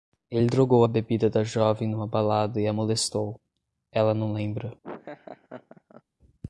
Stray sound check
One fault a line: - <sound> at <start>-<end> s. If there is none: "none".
- laugh at 4.8-6.0 s